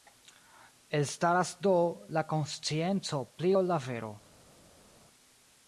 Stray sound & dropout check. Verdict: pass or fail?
pass